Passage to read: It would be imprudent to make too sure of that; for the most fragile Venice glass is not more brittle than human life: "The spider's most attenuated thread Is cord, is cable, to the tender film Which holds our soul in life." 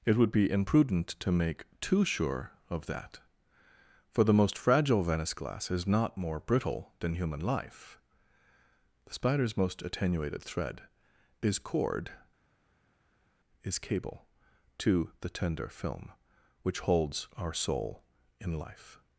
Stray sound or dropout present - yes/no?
no